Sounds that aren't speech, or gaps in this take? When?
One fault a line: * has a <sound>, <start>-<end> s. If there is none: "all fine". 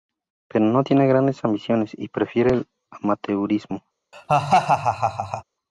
* has a laugh, 4.1-5.4 s